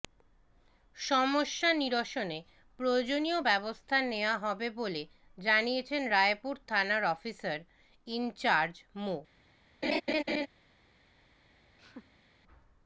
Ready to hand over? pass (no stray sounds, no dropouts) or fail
fail